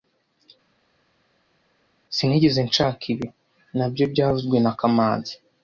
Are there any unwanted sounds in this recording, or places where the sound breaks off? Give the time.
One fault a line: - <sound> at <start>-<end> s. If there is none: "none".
none